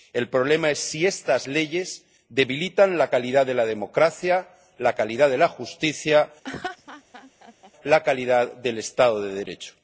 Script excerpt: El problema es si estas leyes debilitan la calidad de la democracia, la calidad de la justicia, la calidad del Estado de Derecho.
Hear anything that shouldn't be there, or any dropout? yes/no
yes